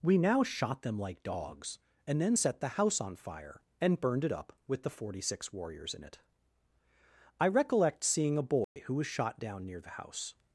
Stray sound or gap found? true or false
true